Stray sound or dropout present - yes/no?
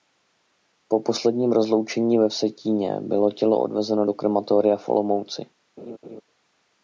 yes